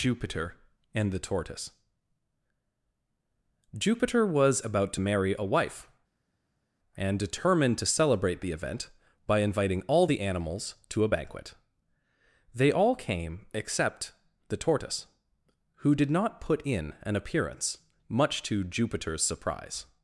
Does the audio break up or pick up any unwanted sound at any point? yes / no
no